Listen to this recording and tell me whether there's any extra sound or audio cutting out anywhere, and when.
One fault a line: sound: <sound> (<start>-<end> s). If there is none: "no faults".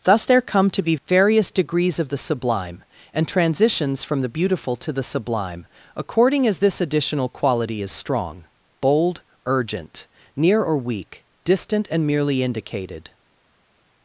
no faults